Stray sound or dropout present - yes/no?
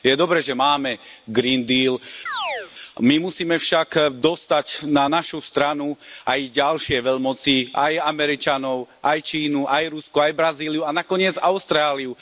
yes